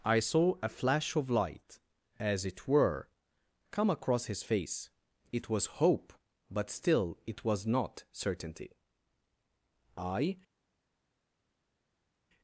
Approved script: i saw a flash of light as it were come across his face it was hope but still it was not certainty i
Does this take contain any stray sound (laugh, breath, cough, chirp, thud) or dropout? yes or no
no